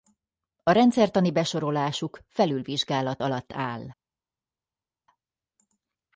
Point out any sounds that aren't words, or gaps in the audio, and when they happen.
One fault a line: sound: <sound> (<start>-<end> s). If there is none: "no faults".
no faults